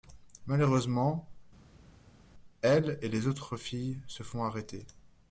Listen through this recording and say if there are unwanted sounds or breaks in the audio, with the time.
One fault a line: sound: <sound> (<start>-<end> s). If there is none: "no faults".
no faults